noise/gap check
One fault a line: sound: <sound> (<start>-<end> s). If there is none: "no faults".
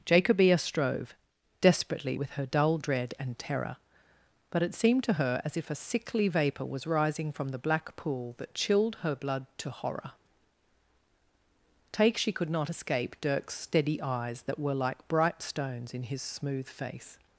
no faults